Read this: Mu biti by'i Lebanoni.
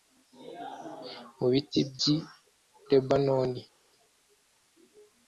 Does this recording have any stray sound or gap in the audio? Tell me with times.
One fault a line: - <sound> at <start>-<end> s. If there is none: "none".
none